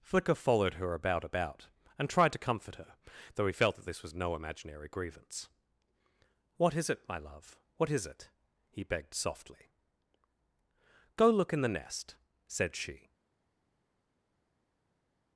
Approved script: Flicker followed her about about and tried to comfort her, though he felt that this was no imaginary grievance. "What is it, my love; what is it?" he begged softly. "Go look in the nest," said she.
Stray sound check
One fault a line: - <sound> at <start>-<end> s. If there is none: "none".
none